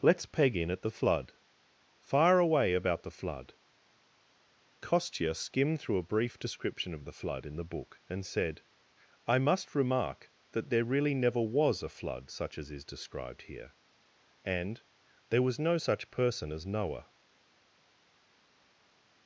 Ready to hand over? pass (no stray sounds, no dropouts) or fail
pass